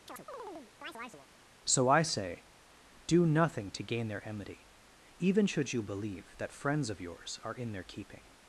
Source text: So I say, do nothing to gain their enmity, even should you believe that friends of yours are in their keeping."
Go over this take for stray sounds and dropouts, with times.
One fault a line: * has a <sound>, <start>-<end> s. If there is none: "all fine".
* has a chirp, 0.1-1.3 s